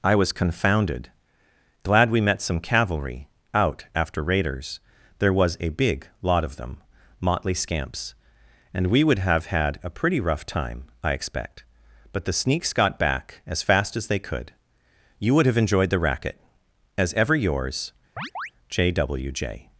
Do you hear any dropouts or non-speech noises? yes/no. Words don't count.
yes